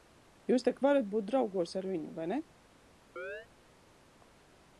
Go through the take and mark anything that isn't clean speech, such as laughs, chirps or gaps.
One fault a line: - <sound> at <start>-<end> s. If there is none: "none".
- chirp at 3.2-3.5 s